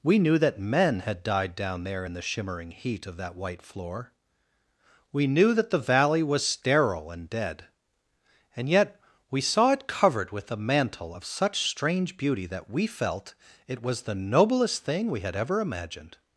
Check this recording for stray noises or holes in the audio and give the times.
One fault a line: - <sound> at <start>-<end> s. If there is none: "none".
none